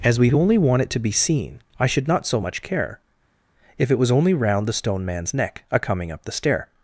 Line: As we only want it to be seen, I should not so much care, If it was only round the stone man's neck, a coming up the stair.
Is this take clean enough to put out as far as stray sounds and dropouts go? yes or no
yes